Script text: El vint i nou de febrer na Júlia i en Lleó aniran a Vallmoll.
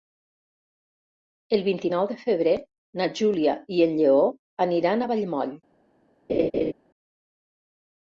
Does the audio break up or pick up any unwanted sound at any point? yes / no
yes